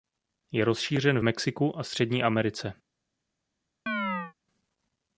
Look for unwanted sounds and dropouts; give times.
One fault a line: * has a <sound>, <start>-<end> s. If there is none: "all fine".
* has a chirp, 3.9-4.3 s